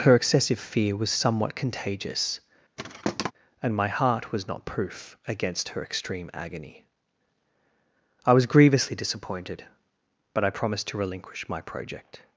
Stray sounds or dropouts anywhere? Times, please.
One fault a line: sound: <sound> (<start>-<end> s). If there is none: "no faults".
sound: thud (2.8-3.3 s)